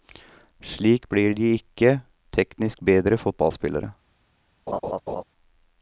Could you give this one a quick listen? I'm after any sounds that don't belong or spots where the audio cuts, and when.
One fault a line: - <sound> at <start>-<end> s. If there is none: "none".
- laugh at 4.7-5.2 s